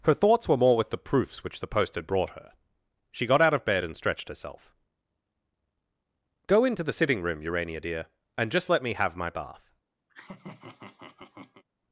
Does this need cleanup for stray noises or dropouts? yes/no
yes